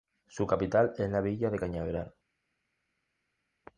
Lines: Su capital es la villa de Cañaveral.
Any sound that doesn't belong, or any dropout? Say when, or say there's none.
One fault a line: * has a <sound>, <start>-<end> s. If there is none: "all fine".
all fine